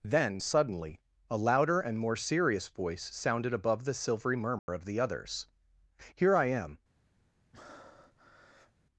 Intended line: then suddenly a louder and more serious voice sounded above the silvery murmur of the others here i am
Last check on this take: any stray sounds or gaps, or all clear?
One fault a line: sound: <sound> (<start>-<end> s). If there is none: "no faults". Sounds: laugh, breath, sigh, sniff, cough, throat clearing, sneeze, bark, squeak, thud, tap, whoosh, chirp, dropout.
sound: dropout (4.6-4.7 s)
sound: breath (7.5-8.7 s)